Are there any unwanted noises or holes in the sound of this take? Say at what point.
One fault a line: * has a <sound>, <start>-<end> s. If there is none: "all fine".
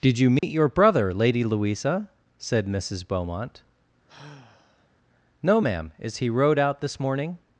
* has a dropout, 0.4-0.4 s
* has a sigh, 4.1-4.9 s